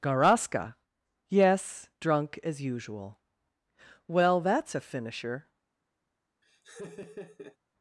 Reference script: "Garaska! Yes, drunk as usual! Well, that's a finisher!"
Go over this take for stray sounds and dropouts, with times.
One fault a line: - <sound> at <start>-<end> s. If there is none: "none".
- laugh at 6.4-7.6 s